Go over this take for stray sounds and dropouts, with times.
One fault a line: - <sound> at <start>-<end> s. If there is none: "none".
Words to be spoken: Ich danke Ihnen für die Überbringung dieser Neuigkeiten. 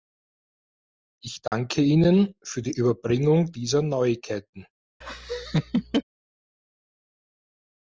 - dropout at 1.5-1.5 s
- laugh at 5.0-6.0 s